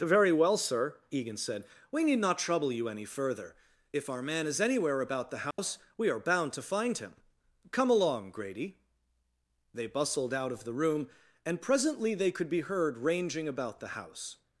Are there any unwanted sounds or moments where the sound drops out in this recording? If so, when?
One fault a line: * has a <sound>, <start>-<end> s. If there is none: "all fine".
* has a dropout, 5.5-5.6 s